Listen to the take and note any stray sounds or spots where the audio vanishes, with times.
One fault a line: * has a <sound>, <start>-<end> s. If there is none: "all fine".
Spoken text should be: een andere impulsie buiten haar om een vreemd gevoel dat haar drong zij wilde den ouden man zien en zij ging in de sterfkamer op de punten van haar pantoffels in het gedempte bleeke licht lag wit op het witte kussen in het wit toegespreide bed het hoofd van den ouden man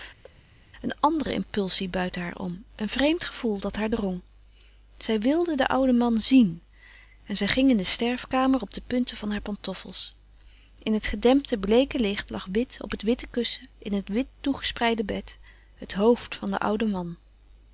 * has a thud, 0.2-0.4 s